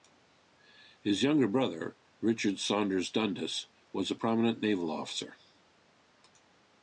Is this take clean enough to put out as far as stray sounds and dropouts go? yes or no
yes